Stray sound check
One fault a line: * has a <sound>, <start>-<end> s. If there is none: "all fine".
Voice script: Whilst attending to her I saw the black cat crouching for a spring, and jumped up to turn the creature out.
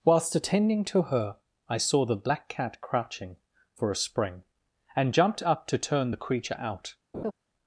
* has a laugh, 7.1-7.3 s